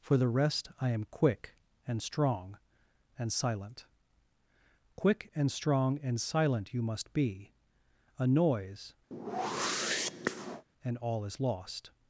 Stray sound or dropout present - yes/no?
yes